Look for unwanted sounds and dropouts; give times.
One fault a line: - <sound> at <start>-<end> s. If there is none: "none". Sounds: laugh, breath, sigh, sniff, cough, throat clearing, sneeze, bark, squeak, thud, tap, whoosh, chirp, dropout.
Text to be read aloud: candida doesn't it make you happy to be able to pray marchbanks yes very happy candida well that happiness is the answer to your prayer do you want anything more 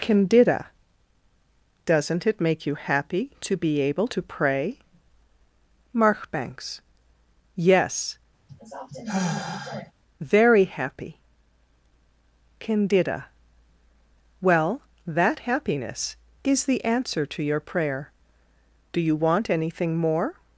- sigh at 8.5-9.9 s